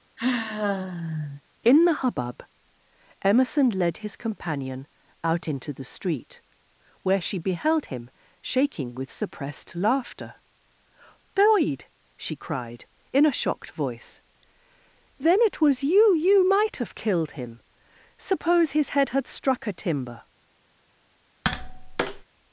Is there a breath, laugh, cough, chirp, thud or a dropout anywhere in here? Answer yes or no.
yes